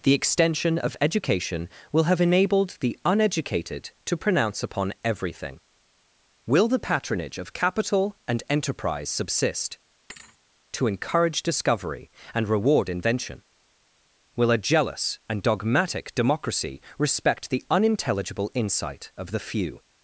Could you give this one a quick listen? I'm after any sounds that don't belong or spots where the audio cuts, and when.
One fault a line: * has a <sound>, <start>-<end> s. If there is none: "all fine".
* has a thud, 10.1-10.4 s